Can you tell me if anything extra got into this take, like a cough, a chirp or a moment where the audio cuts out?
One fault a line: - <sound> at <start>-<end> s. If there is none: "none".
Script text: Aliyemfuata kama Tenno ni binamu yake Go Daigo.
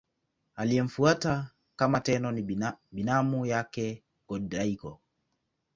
none